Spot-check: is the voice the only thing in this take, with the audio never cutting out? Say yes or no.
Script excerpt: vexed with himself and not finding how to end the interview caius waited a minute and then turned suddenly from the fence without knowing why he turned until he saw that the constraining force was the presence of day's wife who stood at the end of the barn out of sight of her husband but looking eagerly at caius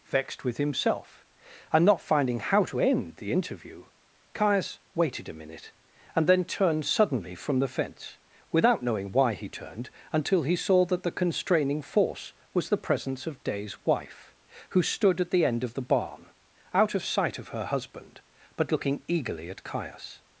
yes